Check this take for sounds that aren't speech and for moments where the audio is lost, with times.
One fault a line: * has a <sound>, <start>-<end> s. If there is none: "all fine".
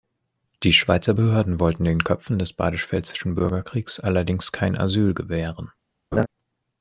* has a laugh, 6.1-6.3 s